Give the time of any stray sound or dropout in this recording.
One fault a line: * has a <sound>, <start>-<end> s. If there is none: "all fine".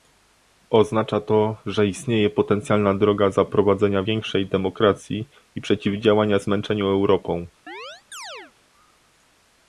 * has a chirp, 7.7-8.5 s